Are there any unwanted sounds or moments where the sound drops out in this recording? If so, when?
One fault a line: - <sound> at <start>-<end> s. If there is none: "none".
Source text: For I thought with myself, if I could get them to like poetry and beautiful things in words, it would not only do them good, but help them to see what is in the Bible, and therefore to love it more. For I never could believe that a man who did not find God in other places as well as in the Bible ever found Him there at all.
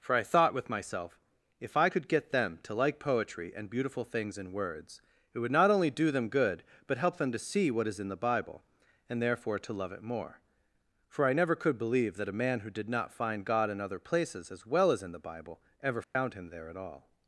- dropout at 16.0-16.2 s